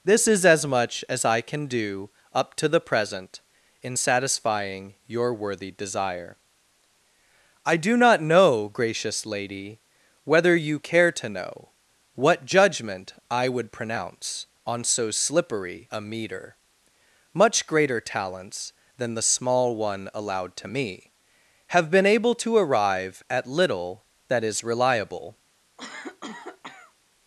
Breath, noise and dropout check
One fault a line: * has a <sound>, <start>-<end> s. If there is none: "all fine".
* has a cough, 25.8-26.9 s